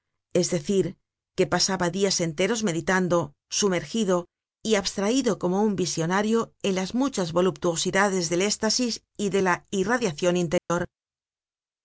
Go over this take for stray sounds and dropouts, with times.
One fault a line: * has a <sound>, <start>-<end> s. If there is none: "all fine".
* has a dropout, 10.6-10.7 s